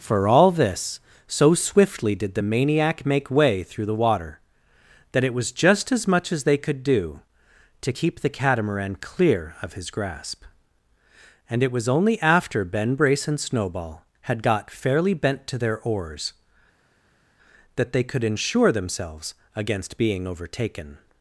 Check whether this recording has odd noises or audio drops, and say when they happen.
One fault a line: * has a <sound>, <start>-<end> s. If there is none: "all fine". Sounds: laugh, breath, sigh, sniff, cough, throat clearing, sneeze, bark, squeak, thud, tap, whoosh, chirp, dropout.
all fine